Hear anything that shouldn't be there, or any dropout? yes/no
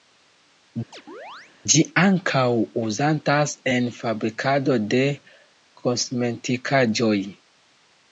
yes